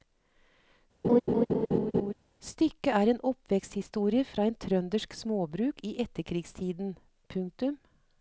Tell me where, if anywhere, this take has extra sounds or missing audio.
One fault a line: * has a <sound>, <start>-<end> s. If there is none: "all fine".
* has a laugh, 1.0-2.1 s